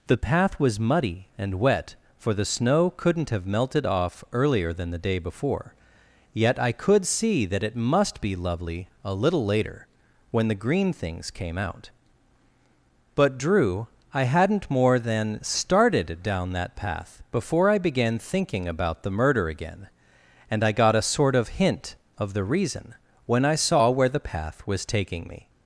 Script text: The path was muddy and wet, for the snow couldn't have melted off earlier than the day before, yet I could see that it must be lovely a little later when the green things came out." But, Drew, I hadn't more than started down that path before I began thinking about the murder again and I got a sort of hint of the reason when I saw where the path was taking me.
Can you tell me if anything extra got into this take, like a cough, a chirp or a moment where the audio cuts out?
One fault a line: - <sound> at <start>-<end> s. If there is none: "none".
none